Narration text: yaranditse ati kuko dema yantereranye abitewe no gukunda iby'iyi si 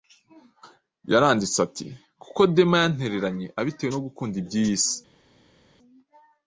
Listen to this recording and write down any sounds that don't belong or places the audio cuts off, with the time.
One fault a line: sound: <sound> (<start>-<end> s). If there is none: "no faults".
no faults